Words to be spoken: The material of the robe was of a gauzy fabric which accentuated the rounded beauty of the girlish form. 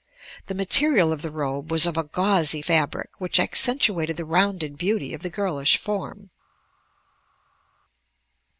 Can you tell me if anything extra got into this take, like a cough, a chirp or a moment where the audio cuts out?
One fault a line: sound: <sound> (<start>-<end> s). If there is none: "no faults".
no faults